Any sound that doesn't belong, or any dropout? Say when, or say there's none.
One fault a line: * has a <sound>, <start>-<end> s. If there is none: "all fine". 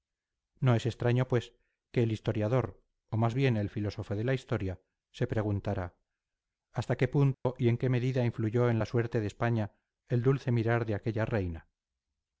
* has a dropout, 7.3-7.5 s